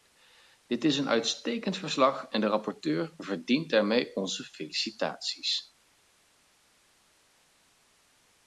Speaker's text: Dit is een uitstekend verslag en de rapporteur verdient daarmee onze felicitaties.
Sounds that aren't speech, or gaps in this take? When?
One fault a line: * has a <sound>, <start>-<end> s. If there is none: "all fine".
all fine